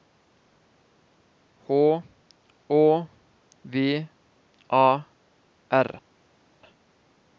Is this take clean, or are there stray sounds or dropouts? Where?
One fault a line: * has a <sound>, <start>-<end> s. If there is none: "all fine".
all fine